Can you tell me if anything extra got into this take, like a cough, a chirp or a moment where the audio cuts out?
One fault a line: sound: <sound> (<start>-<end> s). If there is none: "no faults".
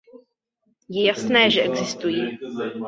no faults